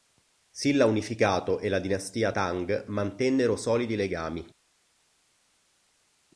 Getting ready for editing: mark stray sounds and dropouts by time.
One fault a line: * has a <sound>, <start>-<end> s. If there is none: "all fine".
all fine